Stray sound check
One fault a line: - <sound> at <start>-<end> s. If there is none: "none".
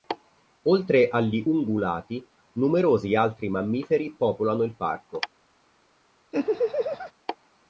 - laugh at 6.3-7.1 s